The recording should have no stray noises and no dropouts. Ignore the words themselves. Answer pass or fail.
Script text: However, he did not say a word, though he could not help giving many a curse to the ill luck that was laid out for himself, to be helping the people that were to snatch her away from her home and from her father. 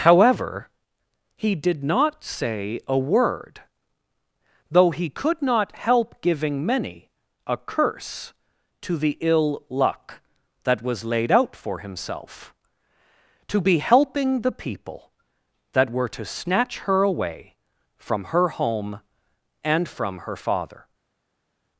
pass